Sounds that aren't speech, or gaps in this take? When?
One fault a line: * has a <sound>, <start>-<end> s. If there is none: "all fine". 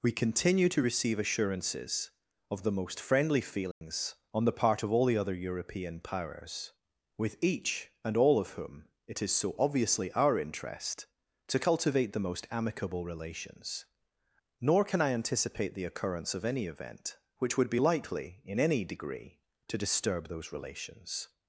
* has a dropout, 3.7-3.8 s